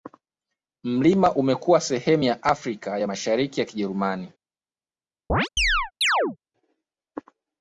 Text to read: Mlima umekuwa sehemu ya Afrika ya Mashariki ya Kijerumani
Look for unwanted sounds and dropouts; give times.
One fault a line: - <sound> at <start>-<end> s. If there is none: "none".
- chirp at 5.3-6.4 s